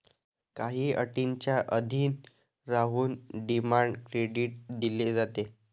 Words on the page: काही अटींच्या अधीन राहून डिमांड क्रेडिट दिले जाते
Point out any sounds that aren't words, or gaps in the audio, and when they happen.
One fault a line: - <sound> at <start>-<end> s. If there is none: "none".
none